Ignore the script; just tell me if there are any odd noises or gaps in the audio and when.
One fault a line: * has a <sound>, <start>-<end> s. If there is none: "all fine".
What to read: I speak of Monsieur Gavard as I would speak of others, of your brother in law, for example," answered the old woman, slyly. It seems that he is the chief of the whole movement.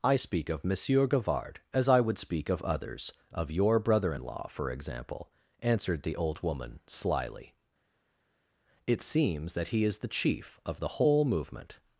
all fine